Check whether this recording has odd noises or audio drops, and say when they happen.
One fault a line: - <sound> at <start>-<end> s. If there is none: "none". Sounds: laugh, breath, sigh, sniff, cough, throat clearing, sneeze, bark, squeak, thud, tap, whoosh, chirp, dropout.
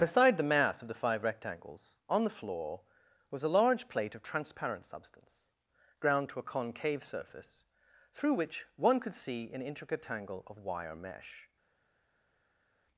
none